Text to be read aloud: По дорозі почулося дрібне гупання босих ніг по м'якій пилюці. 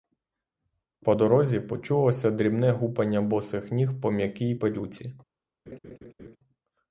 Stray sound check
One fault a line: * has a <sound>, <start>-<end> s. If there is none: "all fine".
* has a laugh, 5.7-6.4 s